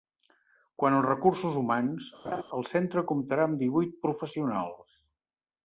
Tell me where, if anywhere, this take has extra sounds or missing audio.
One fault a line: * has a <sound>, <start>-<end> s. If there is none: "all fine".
* has a laugh, 2.2-2.4 s